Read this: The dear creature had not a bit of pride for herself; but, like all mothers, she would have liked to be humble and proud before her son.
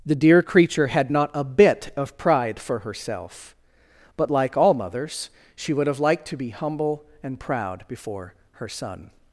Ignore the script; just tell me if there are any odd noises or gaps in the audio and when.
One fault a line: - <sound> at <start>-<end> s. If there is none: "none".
none